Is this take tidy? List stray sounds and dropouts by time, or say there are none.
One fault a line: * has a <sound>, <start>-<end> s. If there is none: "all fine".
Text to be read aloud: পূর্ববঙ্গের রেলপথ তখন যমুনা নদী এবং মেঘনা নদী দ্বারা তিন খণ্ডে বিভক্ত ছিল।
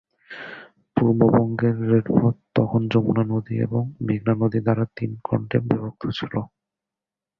all fine